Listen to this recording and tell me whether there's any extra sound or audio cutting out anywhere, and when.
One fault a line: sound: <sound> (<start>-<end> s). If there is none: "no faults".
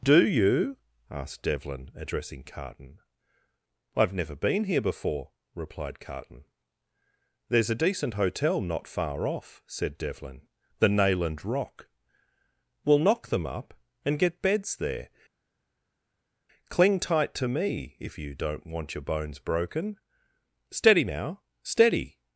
no faults